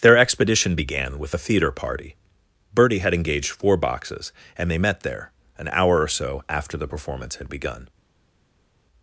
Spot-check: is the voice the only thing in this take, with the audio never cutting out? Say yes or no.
yes